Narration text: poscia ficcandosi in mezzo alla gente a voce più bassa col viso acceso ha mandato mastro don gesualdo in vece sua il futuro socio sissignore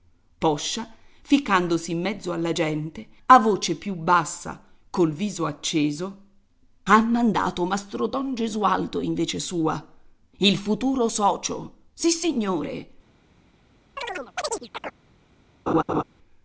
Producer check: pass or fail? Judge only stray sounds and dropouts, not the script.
fail